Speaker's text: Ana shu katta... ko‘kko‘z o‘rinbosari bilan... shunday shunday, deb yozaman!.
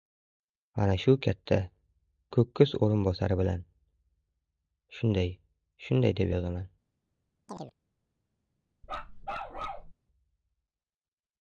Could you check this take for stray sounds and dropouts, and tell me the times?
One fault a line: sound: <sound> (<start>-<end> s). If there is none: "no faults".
sound: chirp (7.5-7.7 s)
sound: bark (8.8-9.9 s)